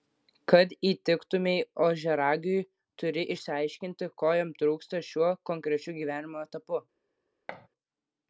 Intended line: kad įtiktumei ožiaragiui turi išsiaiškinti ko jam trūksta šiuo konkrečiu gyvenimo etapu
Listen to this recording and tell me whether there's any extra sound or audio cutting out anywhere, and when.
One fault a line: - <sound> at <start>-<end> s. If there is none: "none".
- thud at 7.5-7.7 s